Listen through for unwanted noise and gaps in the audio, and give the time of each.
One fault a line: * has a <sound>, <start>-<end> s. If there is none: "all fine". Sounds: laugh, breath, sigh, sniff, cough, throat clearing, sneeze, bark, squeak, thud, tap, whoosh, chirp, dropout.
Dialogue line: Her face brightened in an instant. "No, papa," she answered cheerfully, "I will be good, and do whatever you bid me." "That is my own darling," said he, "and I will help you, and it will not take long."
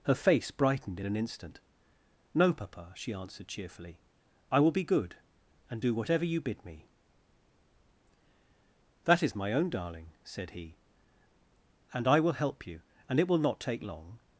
all fine